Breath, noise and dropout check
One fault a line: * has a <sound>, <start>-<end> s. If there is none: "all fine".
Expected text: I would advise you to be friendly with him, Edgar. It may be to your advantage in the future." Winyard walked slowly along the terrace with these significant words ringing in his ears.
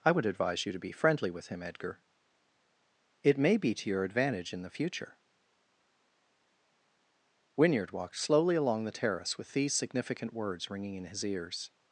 all fine